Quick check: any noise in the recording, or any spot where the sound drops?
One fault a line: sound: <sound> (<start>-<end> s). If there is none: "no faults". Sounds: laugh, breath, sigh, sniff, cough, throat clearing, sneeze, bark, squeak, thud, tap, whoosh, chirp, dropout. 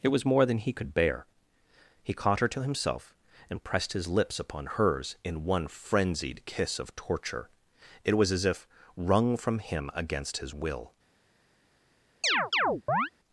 sound: chirp (12.2-13.1 s)